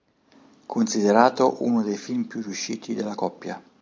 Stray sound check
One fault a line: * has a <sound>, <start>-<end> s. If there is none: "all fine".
all fine